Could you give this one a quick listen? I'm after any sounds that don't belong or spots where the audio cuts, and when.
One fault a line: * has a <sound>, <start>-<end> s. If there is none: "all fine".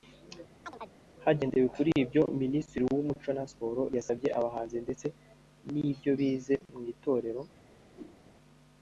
* has a chirp, 0.6-0.9 s
* has a whoosh, 7.9-8.2 s